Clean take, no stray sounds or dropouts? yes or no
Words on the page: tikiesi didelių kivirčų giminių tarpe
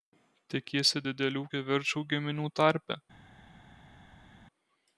yes